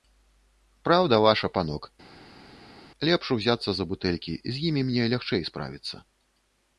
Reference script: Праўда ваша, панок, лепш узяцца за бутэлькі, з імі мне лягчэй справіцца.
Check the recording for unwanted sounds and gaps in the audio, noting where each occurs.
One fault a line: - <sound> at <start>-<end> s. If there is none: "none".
none